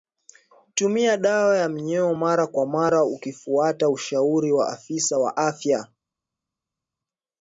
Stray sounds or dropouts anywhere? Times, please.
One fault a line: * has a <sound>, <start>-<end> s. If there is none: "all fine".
all fine